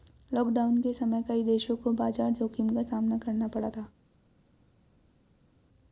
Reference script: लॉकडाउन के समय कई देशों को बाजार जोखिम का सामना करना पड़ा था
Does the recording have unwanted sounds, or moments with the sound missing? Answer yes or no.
no